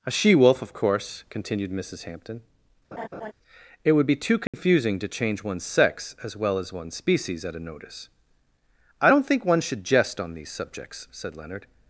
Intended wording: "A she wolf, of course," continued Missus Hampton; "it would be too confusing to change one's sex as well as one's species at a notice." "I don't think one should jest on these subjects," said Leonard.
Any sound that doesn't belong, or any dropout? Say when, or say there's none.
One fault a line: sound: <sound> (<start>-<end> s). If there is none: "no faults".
sound: laugh (2.9-3.3 s)
sound: dropout (4.5-4.5 s)